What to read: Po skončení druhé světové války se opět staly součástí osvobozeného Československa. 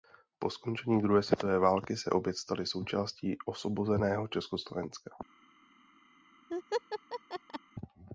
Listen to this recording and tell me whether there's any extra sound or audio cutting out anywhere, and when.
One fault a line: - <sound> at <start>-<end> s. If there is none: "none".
- laugh at 6.5-7.6 s